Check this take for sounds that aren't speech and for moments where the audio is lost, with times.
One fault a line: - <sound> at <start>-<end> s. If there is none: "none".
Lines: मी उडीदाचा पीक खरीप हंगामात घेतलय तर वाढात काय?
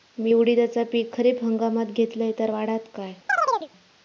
- chirp at 3.3-3.7 s